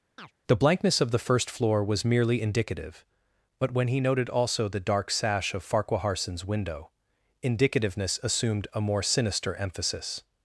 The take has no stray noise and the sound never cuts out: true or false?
false